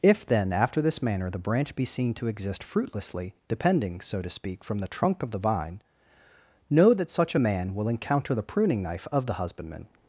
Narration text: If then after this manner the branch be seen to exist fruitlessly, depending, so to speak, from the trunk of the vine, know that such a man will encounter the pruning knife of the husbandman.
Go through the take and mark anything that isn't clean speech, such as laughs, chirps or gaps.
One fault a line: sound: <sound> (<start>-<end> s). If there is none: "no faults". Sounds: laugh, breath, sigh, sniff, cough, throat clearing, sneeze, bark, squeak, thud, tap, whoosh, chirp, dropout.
no faults